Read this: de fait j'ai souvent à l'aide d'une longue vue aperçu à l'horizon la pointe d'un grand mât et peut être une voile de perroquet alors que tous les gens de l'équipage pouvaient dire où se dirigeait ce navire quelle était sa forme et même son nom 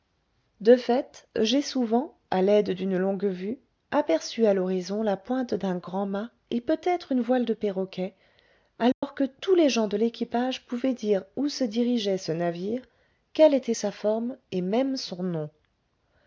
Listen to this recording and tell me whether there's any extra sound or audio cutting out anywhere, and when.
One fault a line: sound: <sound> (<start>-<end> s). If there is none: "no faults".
sound: dropout (8.9-9.0 s)